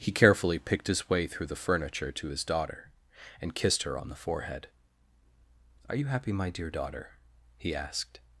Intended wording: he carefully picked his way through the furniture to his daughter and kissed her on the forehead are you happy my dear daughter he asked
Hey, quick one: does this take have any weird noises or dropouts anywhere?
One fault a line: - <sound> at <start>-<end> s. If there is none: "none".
none